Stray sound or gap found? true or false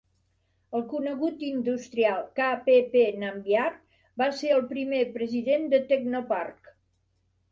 false